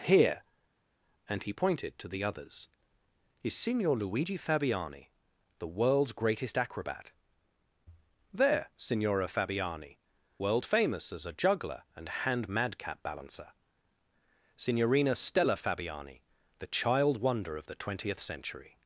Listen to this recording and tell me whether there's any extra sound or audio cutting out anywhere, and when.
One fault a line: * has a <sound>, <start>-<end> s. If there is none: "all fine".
all fine